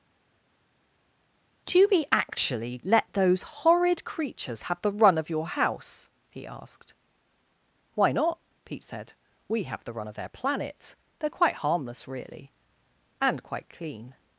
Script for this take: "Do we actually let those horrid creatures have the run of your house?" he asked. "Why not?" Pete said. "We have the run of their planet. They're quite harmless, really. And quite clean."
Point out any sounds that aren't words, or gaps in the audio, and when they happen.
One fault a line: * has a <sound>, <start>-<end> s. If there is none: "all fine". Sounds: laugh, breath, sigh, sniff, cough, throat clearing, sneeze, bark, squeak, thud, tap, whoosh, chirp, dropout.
all fine